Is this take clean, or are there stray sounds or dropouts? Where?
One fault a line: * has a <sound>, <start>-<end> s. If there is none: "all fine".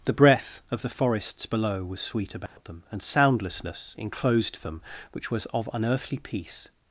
* has a dropout, 2.5-2.6 s